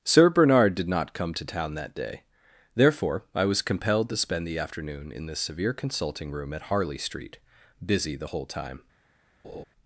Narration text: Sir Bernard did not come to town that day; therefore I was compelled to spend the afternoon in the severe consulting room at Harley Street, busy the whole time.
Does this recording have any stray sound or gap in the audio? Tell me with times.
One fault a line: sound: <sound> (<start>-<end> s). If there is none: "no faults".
sound: laugh (9.4-9.6 s)